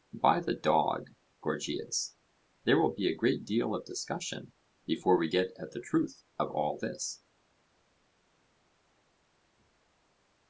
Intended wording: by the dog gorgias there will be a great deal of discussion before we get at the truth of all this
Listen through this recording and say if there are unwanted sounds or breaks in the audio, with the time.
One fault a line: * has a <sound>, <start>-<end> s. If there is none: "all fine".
all fine